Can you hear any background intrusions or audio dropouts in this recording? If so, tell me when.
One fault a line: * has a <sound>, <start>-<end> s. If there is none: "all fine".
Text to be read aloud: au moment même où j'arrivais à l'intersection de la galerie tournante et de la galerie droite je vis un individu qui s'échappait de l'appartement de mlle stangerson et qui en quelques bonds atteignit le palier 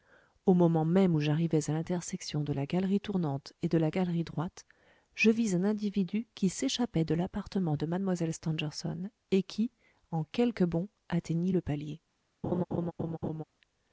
* has a laugh, 12.4-13.4 s